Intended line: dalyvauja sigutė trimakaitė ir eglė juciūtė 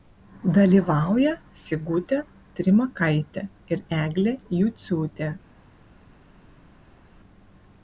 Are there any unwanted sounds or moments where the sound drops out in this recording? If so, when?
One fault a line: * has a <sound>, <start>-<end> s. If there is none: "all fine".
all fine